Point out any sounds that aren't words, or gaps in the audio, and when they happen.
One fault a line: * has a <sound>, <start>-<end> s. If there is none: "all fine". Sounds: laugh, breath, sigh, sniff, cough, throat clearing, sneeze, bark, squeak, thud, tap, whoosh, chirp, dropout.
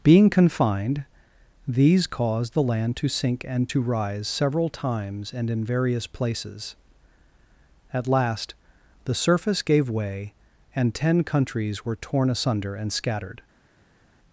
all fine